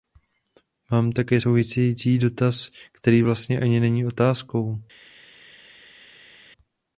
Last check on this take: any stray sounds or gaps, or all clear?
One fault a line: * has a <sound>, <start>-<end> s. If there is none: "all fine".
all fine